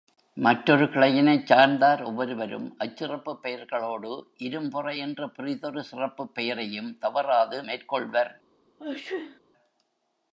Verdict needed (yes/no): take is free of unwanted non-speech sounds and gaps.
no